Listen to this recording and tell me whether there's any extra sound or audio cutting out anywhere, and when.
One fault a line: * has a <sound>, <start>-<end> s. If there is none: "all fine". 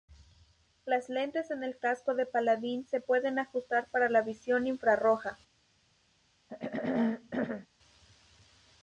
* has a throat clearing, 6.5-7.7 s